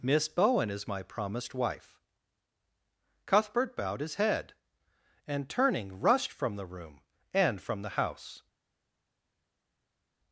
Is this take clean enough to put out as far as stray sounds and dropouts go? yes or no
yes